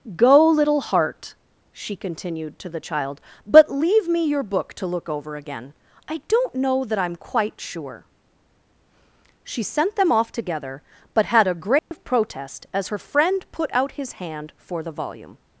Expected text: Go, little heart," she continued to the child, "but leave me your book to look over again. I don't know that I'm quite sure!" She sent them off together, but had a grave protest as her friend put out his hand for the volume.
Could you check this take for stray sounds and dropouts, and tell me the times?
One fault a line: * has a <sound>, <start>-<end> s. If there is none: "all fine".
* has a dropout, 11.8-11.9 s